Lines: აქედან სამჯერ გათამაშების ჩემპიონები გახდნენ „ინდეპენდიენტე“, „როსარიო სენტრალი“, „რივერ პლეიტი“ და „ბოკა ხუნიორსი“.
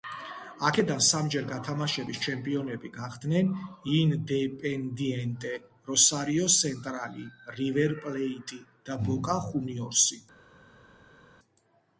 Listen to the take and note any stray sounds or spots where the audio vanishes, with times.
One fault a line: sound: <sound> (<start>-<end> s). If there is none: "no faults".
no faults